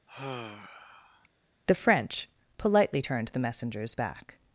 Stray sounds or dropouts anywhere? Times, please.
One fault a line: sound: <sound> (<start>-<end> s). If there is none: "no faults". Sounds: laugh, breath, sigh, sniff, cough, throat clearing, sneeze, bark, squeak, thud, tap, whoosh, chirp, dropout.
sound: sigh (0.1-1.3 s)